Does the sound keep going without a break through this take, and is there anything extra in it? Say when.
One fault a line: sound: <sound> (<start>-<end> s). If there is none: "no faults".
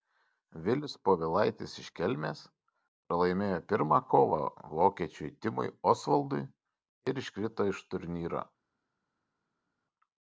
no faults